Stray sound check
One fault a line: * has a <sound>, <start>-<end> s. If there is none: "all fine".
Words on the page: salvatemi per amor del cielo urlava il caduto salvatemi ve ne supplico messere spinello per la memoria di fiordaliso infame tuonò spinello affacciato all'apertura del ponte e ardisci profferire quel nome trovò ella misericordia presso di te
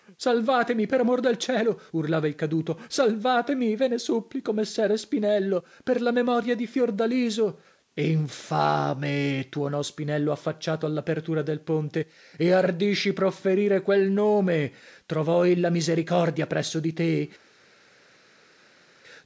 all fine